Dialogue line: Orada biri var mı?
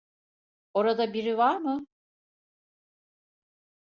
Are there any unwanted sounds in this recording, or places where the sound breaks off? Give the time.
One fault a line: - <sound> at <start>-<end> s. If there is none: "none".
none